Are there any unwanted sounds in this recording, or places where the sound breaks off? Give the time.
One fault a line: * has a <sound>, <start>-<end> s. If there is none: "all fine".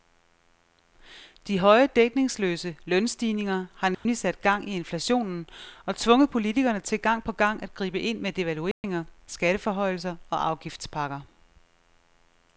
* has a dropout, 3.9-4.1 s
* has a dropout, 8.7-8.8 s